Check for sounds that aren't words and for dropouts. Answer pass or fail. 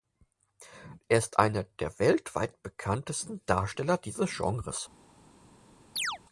fail